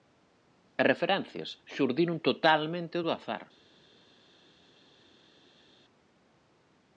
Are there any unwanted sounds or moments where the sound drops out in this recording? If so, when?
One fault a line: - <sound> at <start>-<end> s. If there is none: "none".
none